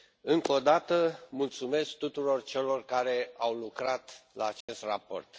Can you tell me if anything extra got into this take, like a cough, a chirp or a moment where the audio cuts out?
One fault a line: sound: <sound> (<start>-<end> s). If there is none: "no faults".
sound: dropout (4.6-4.7 s)